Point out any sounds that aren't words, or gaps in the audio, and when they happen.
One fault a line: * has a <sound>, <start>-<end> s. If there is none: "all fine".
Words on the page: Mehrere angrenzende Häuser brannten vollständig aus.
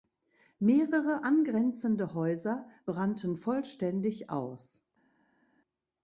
all fine